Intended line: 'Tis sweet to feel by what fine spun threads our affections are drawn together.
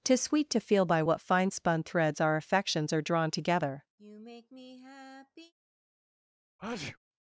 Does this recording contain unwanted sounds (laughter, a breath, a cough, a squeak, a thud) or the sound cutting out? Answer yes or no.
yes